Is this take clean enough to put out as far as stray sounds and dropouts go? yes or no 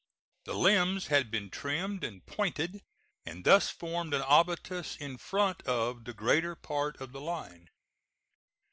yes